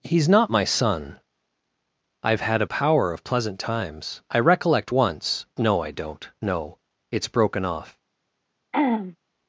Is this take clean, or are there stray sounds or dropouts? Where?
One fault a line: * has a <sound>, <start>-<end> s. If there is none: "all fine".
* has a throat clearing, 8.7-9.2 s